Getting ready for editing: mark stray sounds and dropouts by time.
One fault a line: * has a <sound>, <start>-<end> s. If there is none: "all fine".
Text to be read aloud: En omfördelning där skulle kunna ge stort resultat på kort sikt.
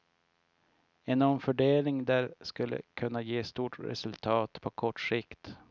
all fine